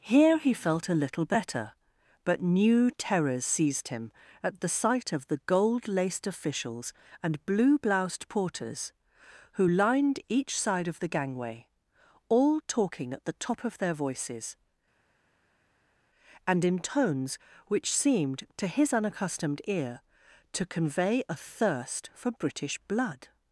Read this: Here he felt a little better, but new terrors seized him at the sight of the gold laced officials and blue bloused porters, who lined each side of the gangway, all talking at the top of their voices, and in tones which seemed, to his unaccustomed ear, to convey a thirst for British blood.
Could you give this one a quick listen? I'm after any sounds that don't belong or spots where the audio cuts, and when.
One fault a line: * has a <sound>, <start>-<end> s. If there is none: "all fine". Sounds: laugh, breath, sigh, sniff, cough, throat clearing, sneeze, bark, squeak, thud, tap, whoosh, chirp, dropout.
all fine